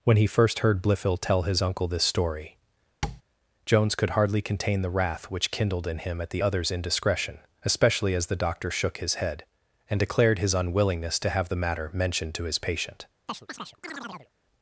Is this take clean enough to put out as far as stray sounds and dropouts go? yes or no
no